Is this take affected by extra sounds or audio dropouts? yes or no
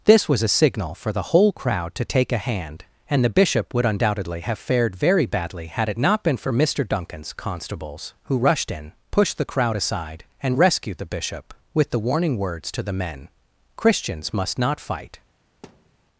yes